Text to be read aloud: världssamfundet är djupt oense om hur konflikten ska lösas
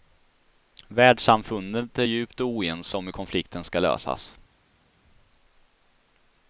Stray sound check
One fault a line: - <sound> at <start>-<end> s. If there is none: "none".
none